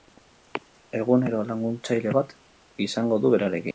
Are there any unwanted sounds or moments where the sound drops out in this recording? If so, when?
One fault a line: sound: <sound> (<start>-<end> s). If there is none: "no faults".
no faults